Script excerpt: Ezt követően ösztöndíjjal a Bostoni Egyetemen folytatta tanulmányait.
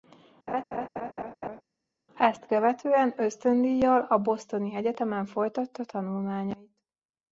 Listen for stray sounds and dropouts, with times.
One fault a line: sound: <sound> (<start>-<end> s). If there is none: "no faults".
sound: laugh (0.5-1.6 s)